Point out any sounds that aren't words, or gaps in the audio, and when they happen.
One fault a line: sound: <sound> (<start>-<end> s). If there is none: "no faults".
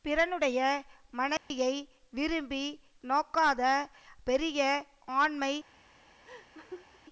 sound: dropout (1.4-1.5 s)
sound: laugh (6.2-7.0 s)